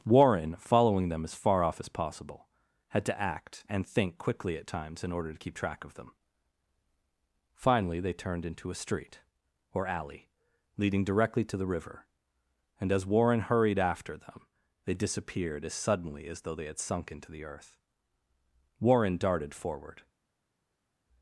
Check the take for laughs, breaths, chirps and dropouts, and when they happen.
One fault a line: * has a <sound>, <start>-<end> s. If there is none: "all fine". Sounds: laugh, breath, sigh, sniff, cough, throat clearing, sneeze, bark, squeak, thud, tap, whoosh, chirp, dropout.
all fine